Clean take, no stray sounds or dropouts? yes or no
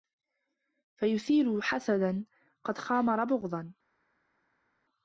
yes